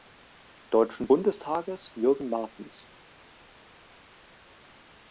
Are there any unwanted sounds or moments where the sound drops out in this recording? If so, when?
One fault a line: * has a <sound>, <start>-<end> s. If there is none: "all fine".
all fine